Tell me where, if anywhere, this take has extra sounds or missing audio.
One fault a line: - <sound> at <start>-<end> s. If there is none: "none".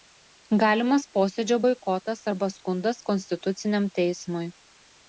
none